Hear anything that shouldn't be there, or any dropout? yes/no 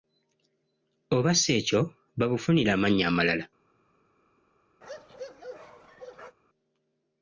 yes